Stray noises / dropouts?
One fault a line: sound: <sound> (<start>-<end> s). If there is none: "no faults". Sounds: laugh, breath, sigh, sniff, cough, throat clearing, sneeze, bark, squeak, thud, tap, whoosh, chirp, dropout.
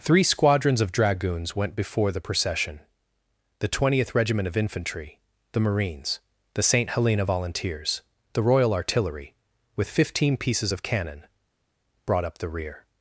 no faults